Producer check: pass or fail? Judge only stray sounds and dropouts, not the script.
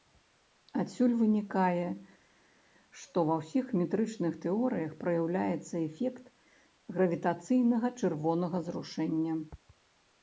pass